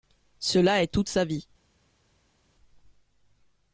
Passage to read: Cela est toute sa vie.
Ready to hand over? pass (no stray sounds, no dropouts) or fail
pass